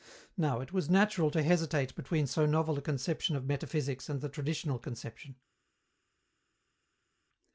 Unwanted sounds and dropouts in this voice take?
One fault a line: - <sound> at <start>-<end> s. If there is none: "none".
none